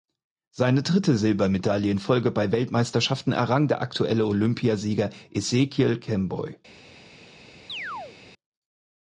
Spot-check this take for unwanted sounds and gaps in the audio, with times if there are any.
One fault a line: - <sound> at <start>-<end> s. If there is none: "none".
- chirp at 7.7-8.2 s